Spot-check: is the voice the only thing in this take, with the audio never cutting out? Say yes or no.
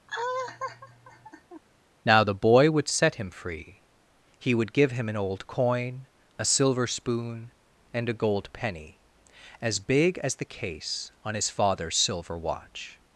no